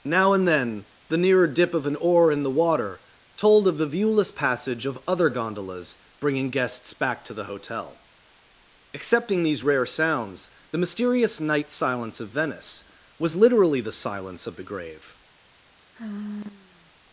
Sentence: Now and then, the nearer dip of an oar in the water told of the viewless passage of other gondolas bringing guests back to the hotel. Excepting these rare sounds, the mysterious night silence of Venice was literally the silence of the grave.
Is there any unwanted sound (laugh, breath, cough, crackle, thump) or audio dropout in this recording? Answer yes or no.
yes